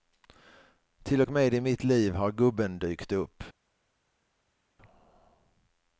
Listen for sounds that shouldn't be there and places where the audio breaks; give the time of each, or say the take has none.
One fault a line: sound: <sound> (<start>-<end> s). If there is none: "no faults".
no faults